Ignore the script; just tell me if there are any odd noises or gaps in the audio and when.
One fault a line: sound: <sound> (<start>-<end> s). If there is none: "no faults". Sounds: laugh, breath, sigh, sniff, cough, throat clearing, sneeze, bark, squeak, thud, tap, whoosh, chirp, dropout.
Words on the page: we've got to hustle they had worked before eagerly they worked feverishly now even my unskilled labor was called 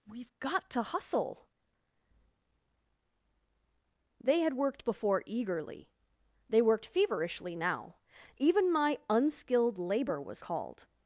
no faults